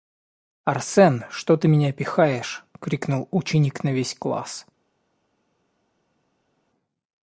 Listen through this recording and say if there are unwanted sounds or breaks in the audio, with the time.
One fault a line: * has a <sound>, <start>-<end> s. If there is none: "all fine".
all fine